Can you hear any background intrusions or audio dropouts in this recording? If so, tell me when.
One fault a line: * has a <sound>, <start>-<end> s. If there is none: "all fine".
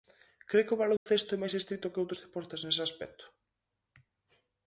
* has a dropout, 1.0-1.1 s